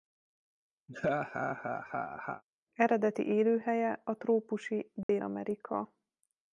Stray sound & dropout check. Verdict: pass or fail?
fail